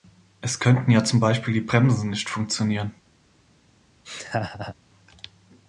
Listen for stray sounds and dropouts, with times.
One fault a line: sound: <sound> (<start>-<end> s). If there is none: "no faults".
sound: laugh (4.0-4.7 s)